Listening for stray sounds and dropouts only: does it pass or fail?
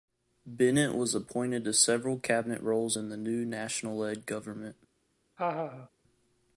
fail